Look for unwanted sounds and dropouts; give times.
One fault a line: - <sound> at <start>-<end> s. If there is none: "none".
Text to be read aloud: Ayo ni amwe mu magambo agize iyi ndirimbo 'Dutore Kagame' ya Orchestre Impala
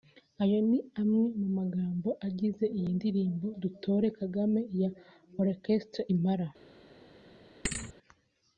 - thud at 7.6-7.9 s